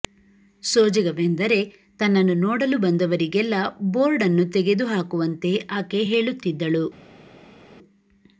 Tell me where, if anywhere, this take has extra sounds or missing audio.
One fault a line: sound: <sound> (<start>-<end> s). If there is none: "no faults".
no faults